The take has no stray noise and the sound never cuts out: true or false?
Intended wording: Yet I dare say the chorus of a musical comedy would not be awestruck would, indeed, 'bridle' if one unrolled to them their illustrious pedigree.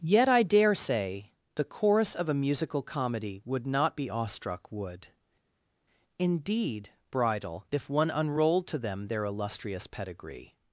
true